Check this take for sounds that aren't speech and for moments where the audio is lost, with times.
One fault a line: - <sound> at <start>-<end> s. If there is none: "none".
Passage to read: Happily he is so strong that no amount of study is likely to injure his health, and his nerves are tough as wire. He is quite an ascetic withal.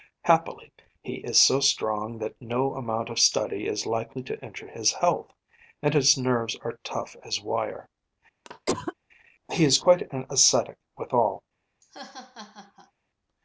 - cough at 8.4-8.9 s
- laugh at 11.8-12.9 s